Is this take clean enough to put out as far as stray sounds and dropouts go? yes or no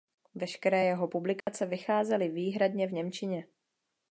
no